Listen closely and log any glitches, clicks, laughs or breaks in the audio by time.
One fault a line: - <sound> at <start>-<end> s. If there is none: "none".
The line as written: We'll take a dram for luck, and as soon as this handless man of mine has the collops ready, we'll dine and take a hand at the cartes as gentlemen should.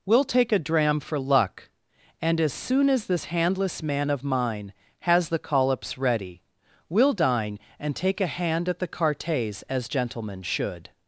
none